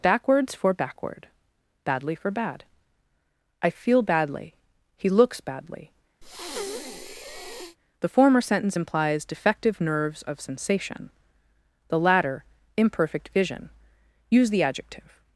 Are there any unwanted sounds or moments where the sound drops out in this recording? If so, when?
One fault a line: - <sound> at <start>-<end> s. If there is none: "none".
- breath at 6.2-7.8 s